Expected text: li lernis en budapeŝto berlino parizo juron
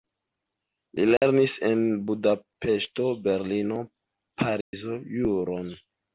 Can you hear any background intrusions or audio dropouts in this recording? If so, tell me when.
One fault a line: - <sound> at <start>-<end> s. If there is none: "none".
- dropout at 1.2-1.2 s
- dropout at 4.6-4.7 s